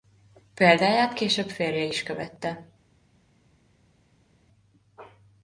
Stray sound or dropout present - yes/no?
no